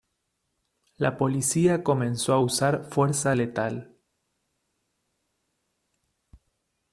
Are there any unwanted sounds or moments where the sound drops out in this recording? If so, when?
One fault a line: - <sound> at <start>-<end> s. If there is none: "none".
none